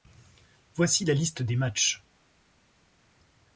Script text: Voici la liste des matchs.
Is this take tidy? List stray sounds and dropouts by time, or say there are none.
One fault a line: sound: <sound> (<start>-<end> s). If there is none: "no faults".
no faults